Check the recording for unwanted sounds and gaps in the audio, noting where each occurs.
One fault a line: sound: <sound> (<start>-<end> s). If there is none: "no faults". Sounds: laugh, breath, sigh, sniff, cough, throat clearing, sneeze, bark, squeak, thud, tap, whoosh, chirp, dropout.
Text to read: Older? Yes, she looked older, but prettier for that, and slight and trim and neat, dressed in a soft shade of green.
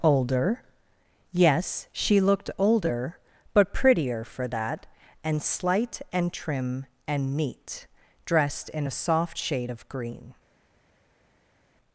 no faults